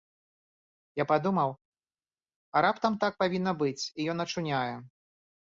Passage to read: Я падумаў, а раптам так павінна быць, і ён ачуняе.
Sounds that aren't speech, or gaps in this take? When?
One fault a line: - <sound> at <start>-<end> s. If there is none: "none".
none